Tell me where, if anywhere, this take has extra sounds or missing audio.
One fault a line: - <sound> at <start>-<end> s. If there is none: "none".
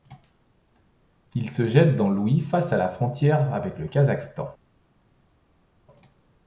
none